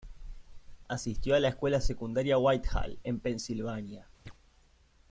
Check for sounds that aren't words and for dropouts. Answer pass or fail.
fail